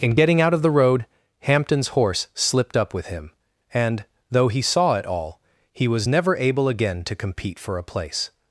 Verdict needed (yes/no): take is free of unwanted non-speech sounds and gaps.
yes